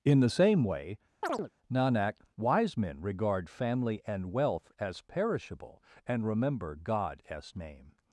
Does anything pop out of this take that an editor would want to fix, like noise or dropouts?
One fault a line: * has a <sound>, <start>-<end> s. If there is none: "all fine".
* has a chirp, 1.2-1.5 s